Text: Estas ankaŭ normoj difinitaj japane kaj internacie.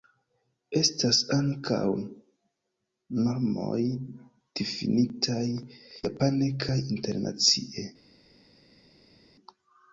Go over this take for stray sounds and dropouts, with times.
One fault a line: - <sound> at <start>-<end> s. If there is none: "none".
none